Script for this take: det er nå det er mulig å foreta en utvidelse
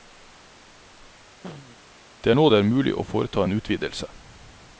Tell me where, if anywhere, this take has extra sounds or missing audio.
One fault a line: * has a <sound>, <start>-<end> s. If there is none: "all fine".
* has a throat clearing, 1.4-1.8 s